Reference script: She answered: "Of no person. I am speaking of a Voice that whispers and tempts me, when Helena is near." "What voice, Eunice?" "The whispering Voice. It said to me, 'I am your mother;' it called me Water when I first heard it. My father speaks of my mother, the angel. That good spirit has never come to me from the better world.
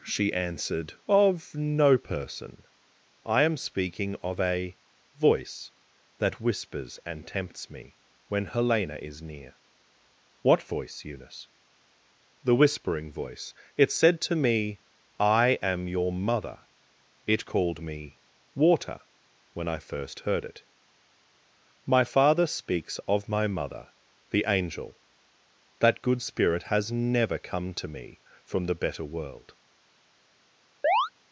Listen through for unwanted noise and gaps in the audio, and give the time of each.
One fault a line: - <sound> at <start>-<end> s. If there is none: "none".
- chirp at 30.8-31.1 s